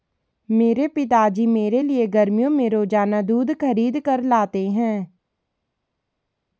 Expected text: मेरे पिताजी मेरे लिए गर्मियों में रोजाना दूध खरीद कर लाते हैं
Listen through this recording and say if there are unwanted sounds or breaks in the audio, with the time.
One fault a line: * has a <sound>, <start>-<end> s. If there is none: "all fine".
all fine